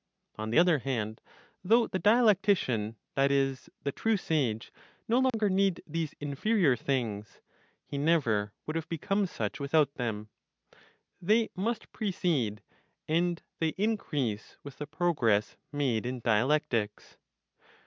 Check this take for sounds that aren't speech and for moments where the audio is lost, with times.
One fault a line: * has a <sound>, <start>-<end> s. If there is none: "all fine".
* has a dropout, 5.3-5.3 s